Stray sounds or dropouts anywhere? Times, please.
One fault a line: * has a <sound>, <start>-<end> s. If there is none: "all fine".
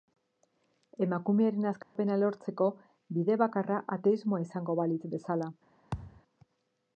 * has a dropout, 1.8-2.0 s
* has a thud, 5.9-6.2 s